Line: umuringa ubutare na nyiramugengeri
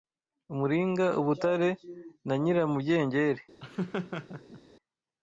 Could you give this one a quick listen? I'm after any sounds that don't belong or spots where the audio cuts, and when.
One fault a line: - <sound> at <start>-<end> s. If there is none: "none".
- laugh at 3.6-4.6 s